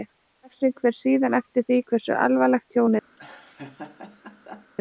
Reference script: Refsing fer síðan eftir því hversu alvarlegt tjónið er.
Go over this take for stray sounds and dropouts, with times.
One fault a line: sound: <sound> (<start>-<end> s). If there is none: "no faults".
sound: laugh (3.2-4.7 s)